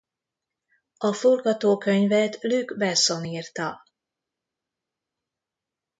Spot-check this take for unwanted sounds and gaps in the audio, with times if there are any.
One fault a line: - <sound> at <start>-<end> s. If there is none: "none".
none